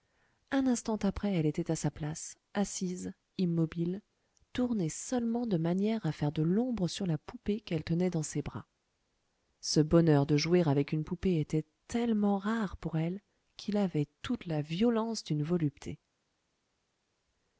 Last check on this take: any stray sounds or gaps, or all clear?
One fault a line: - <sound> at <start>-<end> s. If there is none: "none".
none